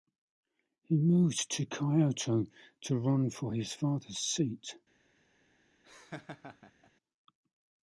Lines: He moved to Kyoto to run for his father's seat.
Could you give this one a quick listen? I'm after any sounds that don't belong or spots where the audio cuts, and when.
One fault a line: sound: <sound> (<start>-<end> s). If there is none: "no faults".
sound: laugh (5.8-6.9 s)